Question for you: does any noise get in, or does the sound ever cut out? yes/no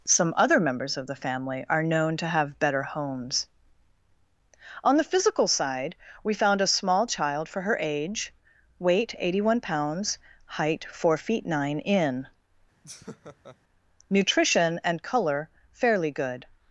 yes